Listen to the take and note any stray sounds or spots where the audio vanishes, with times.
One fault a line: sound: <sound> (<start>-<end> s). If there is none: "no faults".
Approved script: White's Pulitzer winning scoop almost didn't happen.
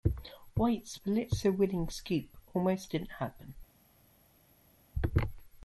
no faults